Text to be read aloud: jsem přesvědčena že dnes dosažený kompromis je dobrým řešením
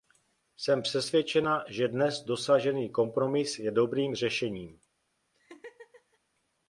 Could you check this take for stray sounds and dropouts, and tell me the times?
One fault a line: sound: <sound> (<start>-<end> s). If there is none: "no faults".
sound: laugh (5.3-6.2 s)